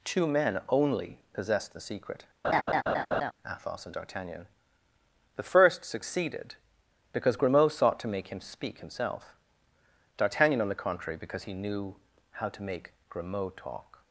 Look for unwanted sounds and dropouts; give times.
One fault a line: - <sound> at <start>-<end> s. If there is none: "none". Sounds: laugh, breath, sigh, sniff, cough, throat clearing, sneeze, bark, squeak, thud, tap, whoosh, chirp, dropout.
- laugh at 2.4-3.3 s